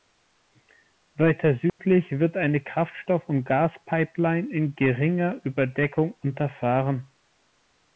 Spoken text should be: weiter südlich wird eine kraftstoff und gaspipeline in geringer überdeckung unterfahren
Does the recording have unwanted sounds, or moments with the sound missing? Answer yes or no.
yes